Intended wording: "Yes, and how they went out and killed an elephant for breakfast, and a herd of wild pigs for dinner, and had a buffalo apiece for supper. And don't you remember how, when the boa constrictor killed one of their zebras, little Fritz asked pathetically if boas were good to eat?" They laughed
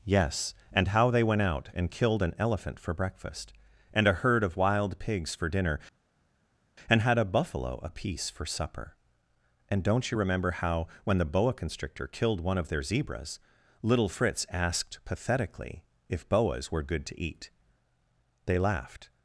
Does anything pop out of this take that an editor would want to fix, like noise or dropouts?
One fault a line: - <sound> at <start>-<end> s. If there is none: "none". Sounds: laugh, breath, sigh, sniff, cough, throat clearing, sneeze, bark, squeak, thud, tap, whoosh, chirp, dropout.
none